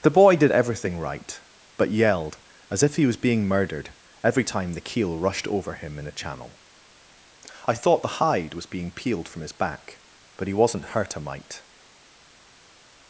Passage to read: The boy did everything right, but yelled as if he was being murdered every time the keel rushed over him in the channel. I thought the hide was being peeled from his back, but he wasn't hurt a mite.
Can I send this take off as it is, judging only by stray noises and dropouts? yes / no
yes